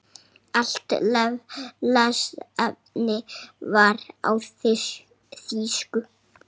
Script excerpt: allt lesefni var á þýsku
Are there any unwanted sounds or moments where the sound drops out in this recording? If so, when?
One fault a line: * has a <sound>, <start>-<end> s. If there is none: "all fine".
all fine